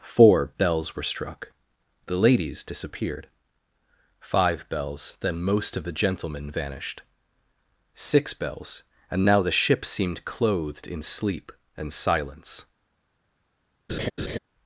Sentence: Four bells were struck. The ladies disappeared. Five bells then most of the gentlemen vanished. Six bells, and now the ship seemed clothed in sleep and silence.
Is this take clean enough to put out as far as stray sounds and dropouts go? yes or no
no